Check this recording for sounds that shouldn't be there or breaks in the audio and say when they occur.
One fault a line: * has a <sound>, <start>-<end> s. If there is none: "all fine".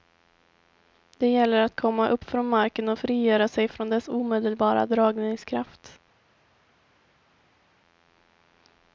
all fine